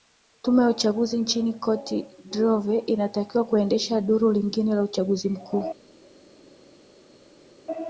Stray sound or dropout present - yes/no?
no